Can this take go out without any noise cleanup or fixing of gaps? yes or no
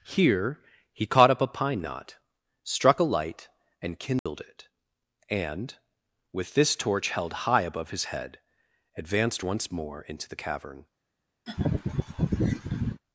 no